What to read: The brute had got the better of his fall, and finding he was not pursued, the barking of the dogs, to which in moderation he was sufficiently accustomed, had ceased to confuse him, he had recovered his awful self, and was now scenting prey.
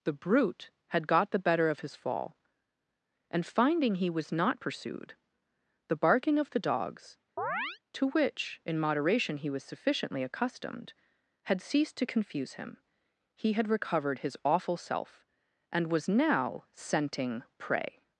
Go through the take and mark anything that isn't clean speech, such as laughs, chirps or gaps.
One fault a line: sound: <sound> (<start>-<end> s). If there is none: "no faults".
sound: chirp (7.4-7.8 s)